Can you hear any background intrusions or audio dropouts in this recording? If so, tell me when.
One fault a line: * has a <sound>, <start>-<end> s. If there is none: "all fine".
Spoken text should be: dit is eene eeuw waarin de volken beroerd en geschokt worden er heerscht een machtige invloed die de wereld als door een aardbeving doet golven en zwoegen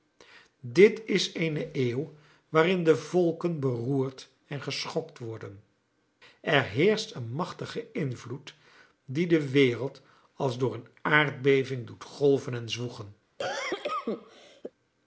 * has a cough, 13.4-14.7 s